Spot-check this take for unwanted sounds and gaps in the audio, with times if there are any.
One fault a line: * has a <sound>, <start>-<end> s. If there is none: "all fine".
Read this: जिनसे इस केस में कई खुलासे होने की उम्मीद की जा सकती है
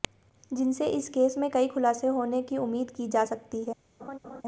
* has a laugh, 4.0-4.4 s